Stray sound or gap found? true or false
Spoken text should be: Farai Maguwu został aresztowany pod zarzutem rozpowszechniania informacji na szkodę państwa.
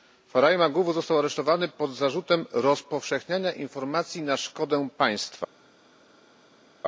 false